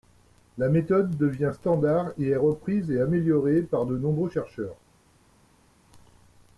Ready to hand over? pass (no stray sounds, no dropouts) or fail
pass